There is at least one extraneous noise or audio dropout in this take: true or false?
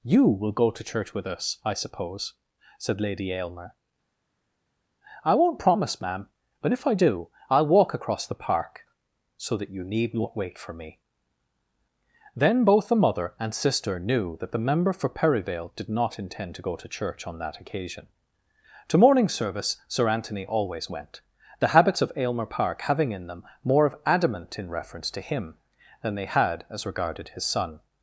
false